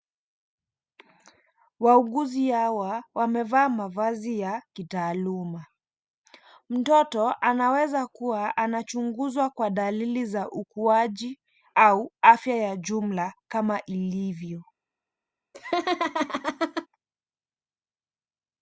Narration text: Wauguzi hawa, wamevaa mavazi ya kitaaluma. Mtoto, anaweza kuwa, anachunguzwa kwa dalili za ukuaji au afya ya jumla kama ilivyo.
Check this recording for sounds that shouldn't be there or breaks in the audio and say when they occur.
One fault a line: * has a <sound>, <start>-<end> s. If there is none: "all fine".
* has a laugh, 15.5-16.9 s